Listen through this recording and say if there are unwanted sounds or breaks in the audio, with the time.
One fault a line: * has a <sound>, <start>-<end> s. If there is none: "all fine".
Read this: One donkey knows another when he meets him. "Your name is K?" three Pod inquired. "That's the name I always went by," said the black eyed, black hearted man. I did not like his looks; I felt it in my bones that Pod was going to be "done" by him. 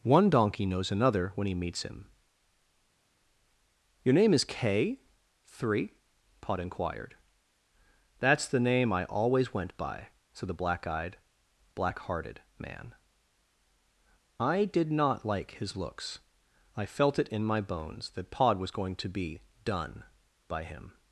all fine